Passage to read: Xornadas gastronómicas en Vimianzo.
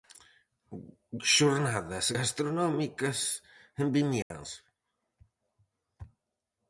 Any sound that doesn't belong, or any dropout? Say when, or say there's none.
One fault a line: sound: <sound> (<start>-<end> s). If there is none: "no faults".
sound: dropout (4.2-4.3 s)